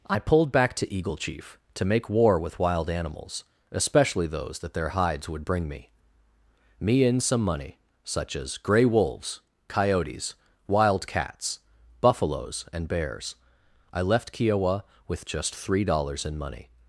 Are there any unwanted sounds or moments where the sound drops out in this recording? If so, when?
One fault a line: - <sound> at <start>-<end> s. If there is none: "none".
none